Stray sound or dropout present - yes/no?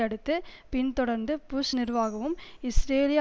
no